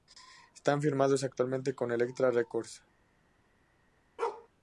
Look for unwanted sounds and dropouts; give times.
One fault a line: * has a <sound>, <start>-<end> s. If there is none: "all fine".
* has a bark, 4.2-4.5 s